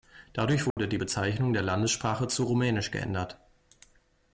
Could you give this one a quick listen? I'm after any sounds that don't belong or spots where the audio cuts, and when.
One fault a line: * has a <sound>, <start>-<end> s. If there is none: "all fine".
* has a dropout, 0.7-0.8 s